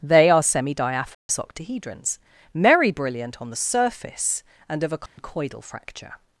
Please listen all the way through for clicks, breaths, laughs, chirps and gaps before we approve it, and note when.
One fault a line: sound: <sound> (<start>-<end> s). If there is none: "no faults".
sound: dropout (1.1-1.3 s)
sound: dropout (5.1-5.2 s)